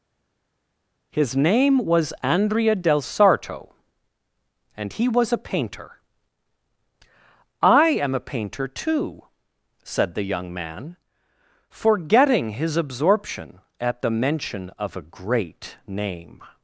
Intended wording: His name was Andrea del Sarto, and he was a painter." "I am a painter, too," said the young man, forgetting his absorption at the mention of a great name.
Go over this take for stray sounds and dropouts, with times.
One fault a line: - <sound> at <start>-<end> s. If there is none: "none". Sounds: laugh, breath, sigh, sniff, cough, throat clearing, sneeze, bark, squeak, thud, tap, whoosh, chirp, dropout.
none